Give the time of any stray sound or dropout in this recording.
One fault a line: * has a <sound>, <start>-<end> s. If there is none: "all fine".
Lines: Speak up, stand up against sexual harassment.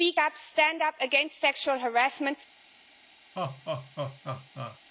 * has a laugh, 3.3-4.8 s